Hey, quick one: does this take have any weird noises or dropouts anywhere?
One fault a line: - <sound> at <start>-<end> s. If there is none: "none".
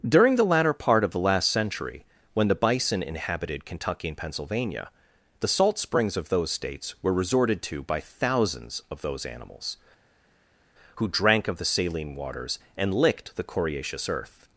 none